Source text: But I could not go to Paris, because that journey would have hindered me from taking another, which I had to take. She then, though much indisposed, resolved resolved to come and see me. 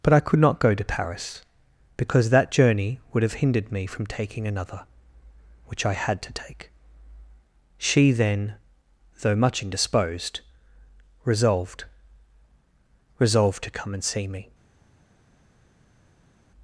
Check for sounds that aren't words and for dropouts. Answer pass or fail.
pass